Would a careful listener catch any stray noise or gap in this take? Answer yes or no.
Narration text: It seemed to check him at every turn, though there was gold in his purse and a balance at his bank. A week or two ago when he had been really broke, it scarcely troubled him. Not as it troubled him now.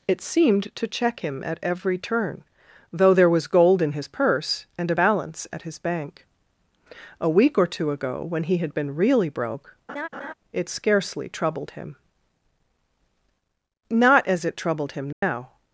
yes